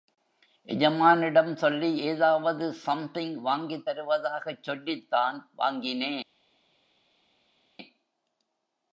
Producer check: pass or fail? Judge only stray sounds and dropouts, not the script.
pass